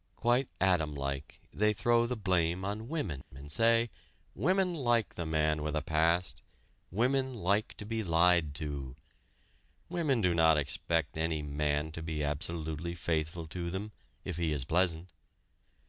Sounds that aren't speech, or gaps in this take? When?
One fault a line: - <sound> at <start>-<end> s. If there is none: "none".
- dropout at 3.2-3.3 s